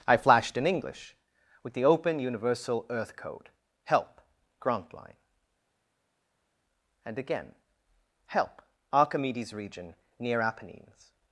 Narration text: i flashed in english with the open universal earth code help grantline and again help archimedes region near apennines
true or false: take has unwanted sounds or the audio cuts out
false